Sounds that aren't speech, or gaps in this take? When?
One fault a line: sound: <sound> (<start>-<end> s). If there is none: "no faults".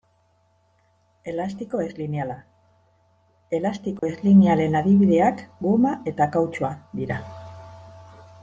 sound: dropout (4.0-4.0 s)